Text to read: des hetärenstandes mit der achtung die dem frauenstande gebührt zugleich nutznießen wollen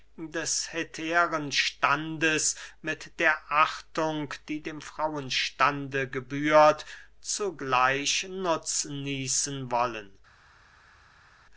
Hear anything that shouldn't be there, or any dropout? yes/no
no